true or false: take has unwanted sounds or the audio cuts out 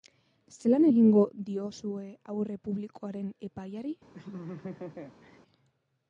true